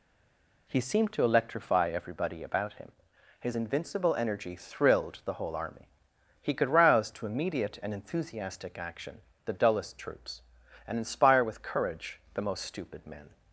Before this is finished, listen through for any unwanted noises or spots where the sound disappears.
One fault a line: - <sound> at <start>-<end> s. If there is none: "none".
none